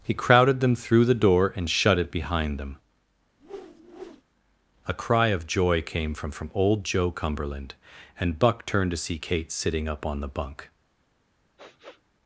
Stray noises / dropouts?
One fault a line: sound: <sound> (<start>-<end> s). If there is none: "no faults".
sound: whoosh (3.4-4.2 s)
sound: sniff (11.6-12.0 s)